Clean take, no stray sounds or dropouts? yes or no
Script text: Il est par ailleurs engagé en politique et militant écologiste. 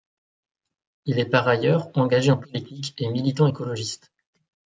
yes